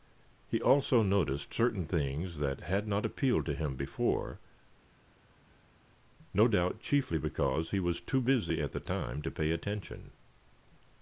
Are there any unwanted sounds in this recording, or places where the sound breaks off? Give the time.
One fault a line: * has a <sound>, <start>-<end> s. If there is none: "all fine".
all fine